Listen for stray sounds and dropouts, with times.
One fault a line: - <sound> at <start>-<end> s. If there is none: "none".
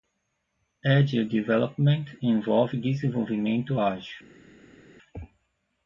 none